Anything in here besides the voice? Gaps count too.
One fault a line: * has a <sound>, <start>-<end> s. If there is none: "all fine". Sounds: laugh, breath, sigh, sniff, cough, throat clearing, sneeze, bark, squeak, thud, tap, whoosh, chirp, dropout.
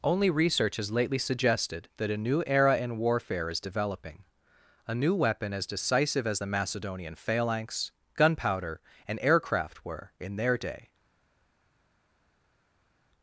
all fine